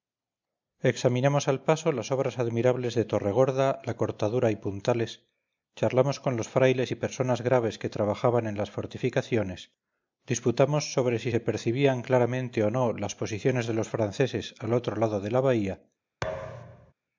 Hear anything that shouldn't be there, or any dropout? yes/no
yes